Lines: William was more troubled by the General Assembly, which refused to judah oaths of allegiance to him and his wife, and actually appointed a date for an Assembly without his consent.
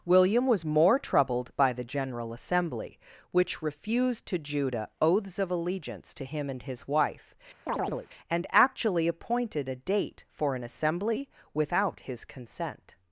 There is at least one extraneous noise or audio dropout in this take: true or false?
true